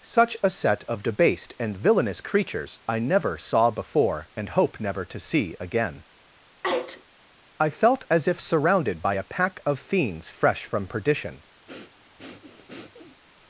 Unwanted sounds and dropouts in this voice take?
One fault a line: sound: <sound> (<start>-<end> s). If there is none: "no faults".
sound: sneeze (6.6-7.0 s)
sound: breath (11.7-13.2 s)